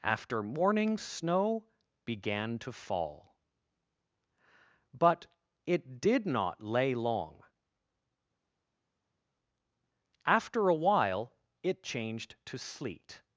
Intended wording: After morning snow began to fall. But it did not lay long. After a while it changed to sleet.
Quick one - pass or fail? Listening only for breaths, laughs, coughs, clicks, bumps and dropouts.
pass